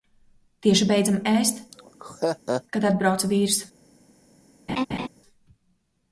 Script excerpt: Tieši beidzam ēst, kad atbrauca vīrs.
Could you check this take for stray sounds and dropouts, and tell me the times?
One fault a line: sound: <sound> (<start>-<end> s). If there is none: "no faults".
sound: laugh (1.7-2.6 s)
sound: laugh (4.7-5.1 s)